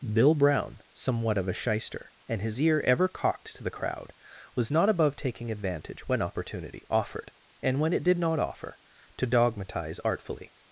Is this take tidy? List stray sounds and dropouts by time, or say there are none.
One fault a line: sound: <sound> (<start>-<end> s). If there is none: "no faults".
no faults